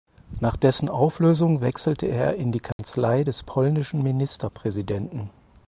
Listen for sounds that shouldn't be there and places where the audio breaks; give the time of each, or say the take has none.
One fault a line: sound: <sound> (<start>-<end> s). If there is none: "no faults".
sound: dropout (2.7-2.8 s)